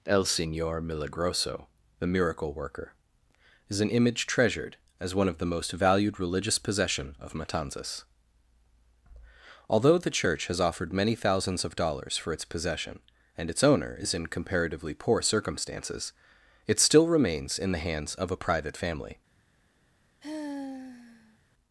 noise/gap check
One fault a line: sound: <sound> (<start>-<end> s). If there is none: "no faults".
sound: sigh (20.2-21.4 s)